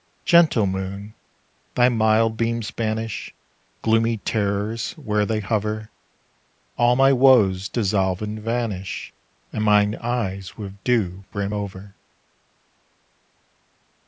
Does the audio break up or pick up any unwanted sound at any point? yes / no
no